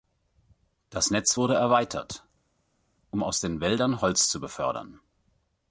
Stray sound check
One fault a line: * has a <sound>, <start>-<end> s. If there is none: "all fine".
all fine